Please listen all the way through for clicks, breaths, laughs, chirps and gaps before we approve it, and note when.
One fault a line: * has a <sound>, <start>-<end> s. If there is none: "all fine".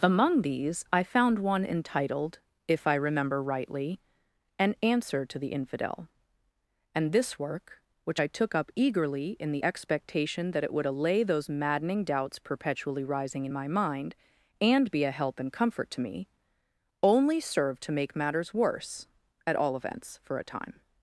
all fine